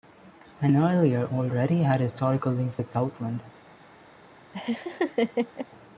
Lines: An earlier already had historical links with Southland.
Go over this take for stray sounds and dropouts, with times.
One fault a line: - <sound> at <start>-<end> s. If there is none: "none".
- laugh at 4.5-5.7 s